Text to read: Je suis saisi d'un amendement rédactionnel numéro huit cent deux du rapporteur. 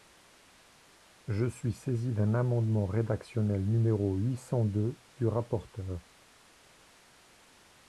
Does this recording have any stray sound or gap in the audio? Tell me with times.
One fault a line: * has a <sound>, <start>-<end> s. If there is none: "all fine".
all fine